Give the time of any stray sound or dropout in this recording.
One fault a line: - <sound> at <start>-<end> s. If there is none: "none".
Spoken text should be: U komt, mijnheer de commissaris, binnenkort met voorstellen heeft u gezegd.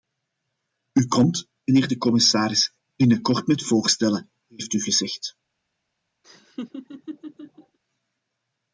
- laugh at 6.2-7.8 s